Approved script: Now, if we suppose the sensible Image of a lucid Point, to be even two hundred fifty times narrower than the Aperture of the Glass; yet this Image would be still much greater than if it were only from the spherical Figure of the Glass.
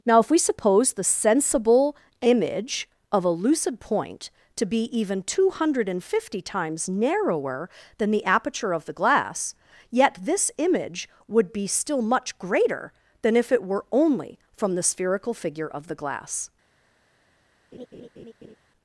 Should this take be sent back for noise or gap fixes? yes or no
yes